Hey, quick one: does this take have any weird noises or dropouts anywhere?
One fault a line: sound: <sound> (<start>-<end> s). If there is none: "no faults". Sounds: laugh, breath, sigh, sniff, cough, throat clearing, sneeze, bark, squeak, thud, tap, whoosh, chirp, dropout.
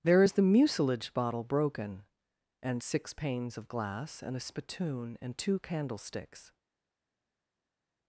no faults